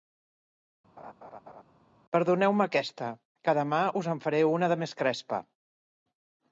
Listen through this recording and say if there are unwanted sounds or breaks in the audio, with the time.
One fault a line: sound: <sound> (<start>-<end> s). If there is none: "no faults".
sound: laugh (1.0-1.6 s)